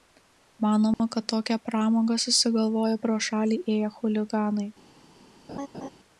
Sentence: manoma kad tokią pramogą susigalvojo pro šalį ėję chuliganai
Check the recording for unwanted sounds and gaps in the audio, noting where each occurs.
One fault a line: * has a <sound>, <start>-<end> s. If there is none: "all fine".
* has a dropout, 0.9-1.0 s
* has a laugh, 5.5-5.9 s